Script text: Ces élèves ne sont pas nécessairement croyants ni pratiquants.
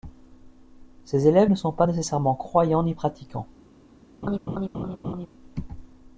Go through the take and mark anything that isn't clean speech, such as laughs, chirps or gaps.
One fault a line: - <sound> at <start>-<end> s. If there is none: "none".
- laugh at 4.2-5.3 s